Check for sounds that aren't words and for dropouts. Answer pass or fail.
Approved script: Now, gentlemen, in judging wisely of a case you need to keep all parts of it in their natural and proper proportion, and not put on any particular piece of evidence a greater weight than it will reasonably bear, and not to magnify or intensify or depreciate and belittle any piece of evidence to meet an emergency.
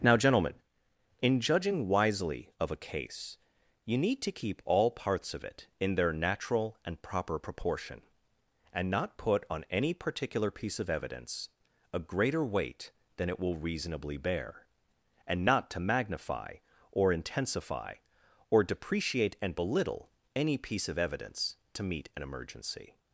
pass